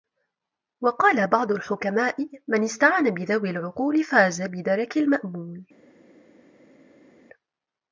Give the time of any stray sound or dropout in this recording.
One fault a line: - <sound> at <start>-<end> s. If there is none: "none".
none